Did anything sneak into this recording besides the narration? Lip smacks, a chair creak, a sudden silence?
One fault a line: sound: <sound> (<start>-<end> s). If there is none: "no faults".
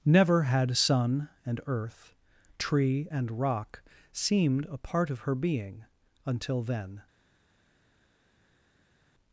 no faults